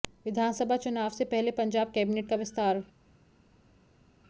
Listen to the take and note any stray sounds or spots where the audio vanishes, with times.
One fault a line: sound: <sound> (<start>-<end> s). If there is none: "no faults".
no faults